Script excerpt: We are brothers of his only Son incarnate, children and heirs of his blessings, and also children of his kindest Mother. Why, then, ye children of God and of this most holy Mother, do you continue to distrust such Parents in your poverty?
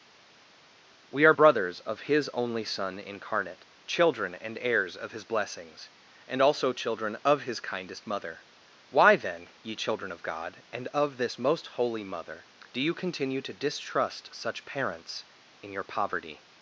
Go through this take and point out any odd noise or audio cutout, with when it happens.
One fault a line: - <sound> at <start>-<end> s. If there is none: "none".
none